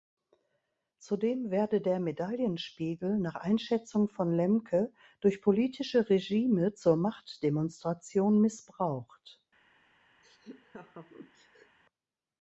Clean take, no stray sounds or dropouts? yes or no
no